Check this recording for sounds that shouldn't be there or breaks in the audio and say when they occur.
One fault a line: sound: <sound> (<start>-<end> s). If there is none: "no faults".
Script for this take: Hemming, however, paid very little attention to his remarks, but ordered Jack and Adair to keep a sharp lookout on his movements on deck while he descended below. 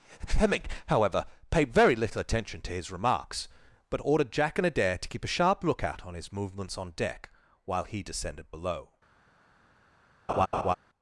sound: laugh (10.3-10.8 s)